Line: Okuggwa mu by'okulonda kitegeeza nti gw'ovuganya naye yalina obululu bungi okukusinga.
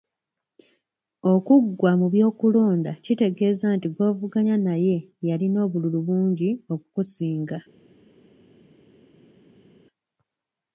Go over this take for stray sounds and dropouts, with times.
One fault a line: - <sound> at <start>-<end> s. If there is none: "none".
none